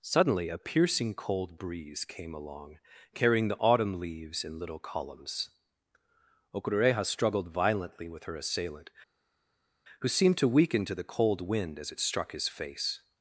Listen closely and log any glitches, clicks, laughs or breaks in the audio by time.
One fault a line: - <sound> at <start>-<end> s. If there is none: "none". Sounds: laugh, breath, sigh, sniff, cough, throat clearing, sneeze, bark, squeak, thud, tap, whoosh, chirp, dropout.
none